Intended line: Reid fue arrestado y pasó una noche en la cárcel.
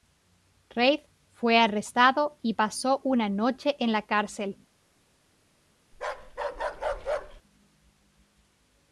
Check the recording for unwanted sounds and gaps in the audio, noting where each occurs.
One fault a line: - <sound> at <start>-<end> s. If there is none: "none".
- bark at 5.9-7.4 s